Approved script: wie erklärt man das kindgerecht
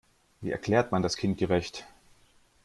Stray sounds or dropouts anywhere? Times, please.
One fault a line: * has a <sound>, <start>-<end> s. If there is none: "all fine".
all fine